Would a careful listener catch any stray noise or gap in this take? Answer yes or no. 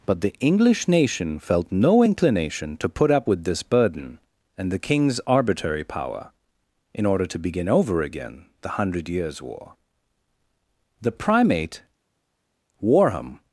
no